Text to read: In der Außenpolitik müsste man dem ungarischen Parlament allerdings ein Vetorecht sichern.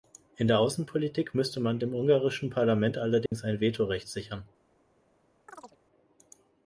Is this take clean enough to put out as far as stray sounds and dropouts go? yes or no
no